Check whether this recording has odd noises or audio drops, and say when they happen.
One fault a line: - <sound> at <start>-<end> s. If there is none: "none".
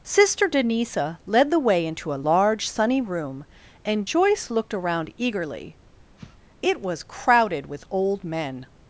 - sniff at 6.2-6.4 s